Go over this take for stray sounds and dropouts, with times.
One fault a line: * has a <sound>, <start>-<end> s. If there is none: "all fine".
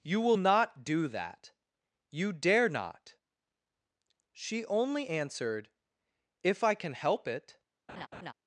* has a laugh, 7.9-8.3 s